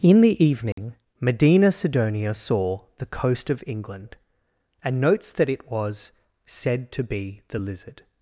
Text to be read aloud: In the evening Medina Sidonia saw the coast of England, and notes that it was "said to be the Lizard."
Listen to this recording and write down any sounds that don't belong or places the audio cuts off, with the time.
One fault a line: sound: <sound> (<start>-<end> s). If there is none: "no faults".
sound: dropout (0.7-0.8 s)